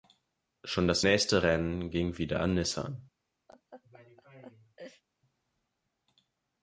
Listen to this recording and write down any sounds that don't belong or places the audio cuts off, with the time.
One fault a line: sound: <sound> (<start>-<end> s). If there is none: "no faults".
sound: laugh (3.5-5.0 s)